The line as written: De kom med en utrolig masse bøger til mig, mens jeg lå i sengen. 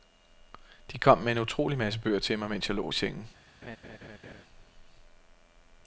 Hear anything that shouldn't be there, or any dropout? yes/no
yes